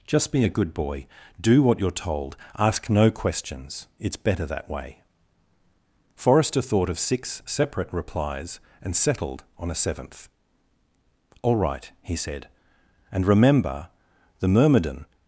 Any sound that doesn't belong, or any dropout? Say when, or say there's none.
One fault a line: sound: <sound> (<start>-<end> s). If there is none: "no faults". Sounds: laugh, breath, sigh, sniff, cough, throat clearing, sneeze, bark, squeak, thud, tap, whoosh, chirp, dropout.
no faults